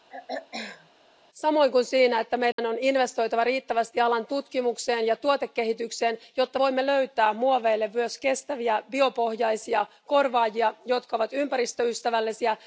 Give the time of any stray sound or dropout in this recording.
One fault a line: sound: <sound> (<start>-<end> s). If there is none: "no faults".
sound: throat clearing (0.1-0.9 s)
sound: dropout (2.5-2.6 s)